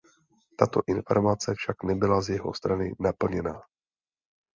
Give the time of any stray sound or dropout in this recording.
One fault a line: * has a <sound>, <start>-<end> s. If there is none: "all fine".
all fine